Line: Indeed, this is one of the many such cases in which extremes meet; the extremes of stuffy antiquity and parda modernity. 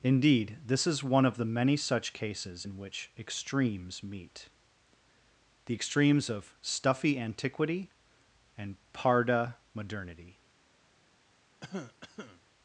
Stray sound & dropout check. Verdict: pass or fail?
fail